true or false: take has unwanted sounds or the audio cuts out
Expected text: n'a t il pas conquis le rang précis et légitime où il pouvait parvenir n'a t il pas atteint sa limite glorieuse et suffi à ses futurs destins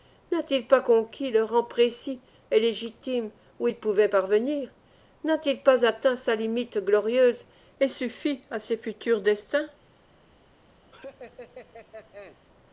true